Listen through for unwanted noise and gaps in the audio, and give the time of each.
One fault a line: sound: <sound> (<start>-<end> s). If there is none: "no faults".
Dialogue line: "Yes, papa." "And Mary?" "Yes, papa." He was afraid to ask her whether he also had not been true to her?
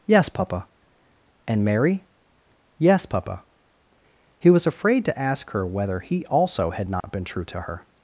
sound: dropout (7.0-7.0 s)